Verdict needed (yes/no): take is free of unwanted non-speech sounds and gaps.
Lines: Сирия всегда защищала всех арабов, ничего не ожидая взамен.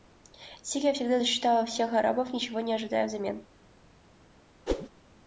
no